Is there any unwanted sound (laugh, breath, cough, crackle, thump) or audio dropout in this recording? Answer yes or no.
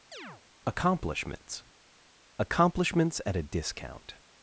yes